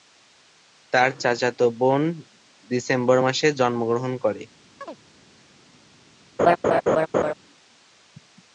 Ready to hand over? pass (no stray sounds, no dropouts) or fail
fail